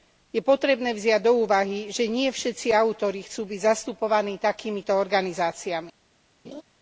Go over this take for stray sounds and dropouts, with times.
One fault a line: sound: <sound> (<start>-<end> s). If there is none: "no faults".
sound: laugh (6.4-6.6 s)